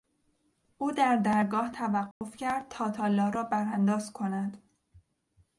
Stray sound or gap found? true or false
true